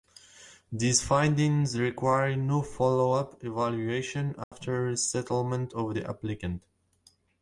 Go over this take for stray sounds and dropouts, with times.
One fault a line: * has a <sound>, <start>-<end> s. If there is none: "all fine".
* has a dropout, 4.4-4.5 s